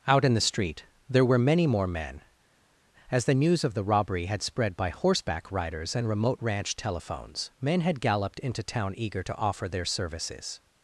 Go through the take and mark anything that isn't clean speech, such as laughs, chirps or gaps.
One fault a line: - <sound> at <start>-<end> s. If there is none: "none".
none